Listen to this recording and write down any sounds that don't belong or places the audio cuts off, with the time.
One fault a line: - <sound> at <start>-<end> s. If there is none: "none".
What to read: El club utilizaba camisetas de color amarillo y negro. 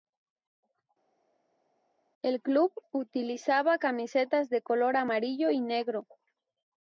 none